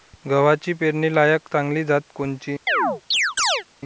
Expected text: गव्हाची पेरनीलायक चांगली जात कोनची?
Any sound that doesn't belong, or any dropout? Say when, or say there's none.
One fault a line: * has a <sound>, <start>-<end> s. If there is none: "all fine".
* has a chirp, 2.7-3.6 s